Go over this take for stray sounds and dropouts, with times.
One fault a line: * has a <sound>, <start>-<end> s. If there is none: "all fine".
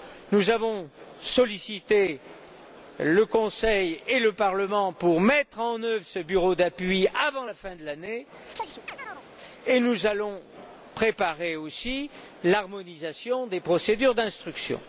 * has a chirp, 8.6-9.2 s